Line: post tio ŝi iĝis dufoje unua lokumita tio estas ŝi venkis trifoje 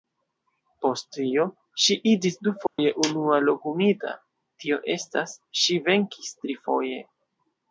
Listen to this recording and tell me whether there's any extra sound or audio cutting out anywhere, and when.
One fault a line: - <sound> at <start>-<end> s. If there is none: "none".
- dropout at 2.7-2.8 s